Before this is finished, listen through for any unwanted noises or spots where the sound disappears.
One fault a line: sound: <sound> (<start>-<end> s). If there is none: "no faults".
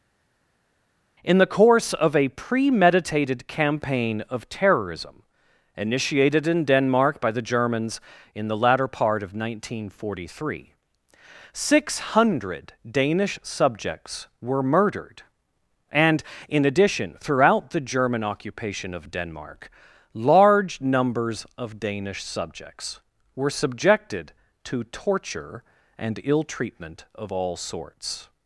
no faults